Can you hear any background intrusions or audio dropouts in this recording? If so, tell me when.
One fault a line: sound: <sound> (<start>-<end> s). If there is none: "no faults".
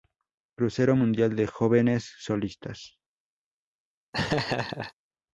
sound: laugh (4.1-4.9 s)